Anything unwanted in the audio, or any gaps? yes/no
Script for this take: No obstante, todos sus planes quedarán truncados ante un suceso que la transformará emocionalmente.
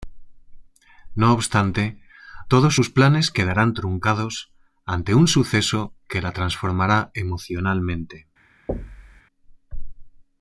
yes